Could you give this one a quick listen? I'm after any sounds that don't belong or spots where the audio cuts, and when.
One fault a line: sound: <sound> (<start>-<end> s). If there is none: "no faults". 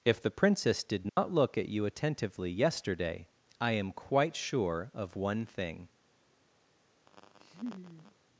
sound: dropout (1.1-1.2 s)
sound: laugh (7.1-8.2 s)